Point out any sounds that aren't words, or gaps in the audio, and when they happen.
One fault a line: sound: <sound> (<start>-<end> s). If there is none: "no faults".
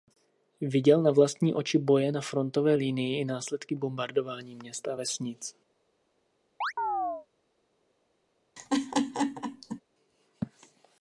sound: chirp (6.6-7.3 s)
sound: laugh (8.6-9.8 s)